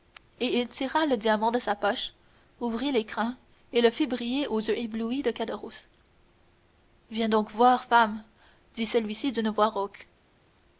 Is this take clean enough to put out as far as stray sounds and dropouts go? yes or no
yes